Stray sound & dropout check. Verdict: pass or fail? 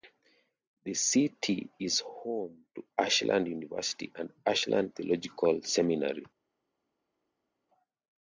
pass